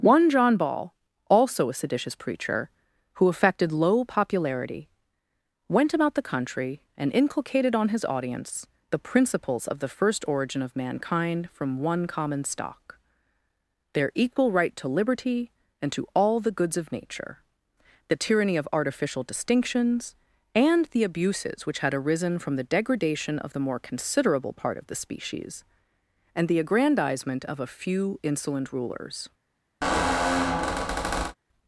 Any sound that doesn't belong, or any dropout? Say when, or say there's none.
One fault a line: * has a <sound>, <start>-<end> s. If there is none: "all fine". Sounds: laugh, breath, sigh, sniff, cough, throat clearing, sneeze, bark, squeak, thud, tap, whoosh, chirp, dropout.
* has a squeak, 29.8-31.4 s